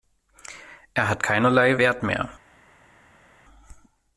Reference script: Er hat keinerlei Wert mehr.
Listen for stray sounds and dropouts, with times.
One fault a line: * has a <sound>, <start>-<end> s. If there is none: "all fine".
all fine